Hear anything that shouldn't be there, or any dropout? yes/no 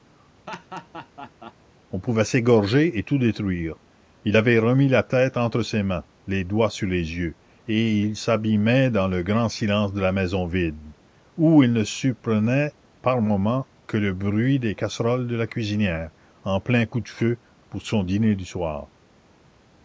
yes